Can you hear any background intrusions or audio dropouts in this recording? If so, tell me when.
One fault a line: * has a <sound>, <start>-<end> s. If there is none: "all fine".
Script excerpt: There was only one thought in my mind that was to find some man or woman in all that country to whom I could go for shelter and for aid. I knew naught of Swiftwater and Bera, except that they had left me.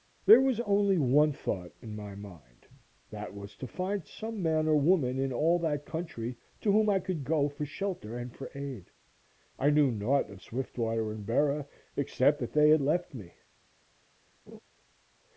* has a laugh, 14.5-14.6 s